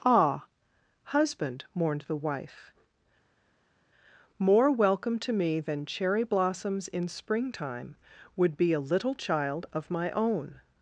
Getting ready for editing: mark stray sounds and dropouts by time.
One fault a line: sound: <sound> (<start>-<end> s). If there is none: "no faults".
no faults